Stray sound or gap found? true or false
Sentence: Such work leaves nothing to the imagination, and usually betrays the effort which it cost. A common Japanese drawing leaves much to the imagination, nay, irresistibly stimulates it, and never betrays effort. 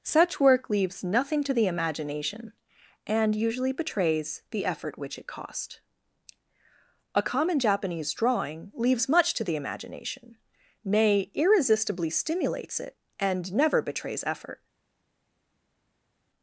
false